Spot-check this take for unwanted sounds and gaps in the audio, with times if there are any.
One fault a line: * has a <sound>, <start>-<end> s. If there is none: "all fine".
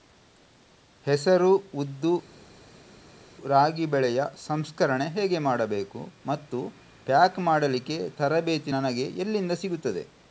all fine